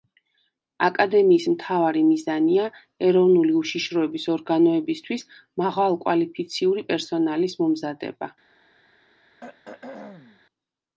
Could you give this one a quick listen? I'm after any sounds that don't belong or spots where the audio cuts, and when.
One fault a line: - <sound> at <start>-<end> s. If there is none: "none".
- throat clearing at 9.4-10.4 s